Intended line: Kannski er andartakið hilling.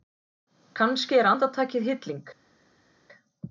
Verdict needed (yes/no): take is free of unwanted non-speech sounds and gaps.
yes